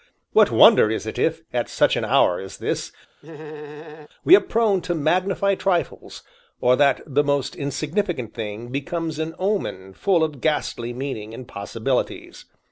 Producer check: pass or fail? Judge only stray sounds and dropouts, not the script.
fail